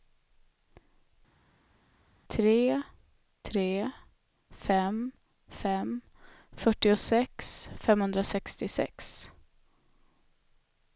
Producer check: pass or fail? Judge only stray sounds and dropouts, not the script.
pass